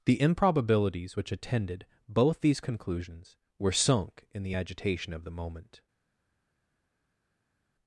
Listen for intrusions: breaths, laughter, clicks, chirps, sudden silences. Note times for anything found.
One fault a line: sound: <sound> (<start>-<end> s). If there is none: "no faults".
no faults